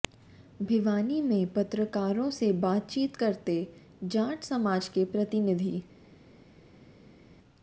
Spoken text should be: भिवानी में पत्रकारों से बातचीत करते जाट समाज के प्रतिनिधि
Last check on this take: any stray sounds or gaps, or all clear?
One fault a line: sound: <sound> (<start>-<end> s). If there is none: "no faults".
no faults